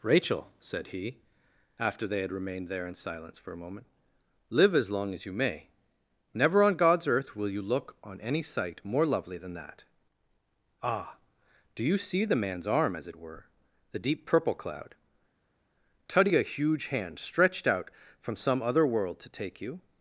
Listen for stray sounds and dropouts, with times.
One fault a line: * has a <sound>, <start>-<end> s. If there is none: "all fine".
all fine